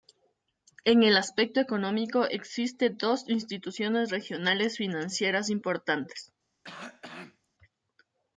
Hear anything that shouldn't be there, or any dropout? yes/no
yes